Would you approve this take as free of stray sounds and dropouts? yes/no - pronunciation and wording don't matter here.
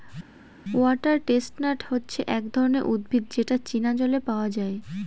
yes